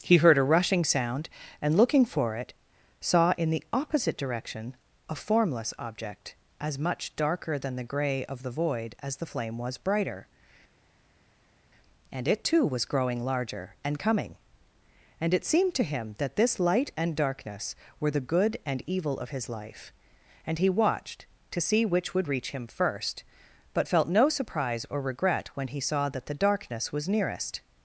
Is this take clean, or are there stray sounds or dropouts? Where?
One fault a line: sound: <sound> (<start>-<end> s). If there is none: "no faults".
no faults